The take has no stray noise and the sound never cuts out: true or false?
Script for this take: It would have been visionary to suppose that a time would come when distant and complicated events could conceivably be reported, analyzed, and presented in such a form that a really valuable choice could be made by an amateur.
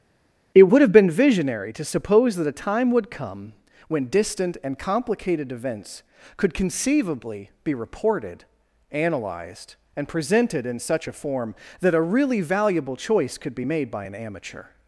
true